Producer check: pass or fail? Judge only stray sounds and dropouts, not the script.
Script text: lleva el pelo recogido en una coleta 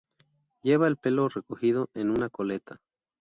pass